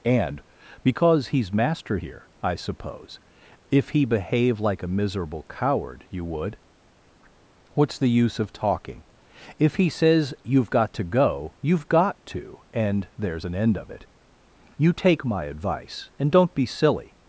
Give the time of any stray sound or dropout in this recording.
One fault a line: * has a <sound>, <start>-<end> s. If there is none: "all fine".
all fine